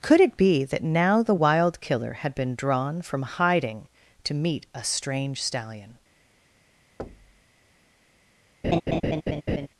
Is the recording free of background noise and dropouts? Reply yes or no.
no